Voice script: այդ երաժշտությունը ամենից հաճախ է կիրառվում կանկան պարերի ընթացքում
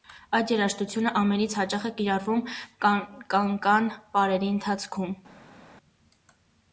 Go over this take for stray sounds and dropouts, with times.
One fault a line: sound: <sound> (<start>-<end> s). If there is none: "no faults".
no faults